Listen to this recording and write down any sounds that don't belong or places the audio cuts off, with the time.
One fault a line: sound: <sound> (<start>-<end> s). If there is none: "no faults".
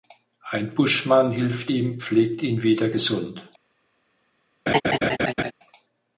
sound: laugh (4.7-5.5 s)